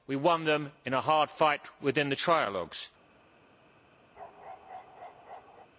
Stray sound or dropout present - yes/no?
yes